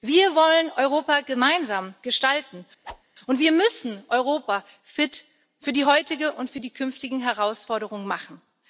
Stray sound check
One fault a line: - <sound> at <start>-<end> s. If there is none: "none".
- whoosh at 2.8-3.0 s